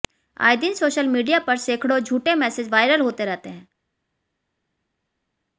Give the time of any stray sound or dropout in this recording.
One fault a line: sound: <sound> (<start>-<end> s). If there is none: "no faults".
no faults